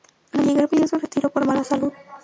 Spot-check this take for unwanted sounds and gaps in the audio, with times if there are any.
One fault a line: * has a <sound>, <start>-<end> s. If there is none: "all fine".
all fine